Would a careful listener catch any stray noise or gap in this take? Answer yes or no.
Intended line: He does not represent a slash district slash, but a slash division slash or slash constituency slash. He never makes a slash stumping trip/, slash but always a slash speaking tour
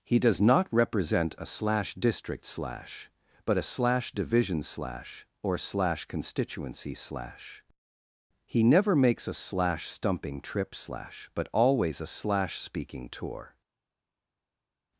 no